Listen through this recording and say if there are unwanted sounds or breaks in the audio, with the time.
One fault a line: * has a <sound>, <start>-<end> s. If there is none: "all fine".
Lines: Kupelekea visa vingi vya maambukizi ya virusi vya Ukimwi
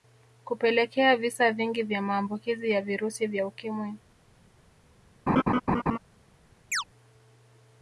* has a laugh, 5.3-6.0 s
* has a chirp, 6.7-6.8 s